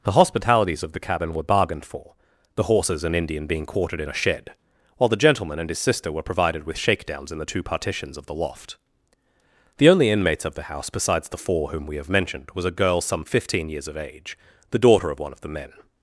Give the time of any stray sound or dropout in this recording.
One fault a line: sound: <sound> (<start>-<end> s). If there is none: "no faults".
no faults